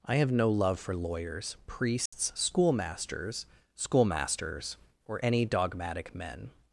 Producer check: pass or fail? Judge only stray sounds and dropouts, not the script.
fail